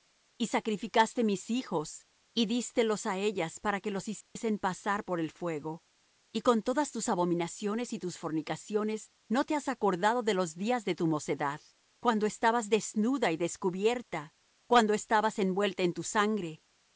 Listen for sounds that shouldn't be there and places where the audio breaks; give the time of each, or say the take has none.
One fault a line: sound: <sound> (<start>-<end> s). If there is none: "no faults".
sound: dropout (4.2-4.4 s)